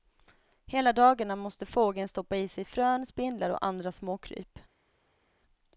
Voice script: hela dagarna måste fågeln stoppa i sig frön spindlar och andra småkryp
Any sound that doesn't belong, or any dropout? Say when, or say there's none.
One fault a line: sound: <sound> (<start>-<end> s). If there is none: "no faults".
no faults